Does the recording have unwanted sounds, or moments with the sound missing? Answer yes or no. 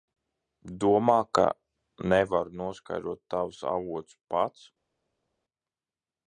no